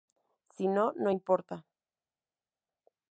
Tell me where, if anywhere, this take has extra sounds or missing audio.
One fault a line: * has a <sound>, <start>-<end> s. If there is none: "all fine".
all fine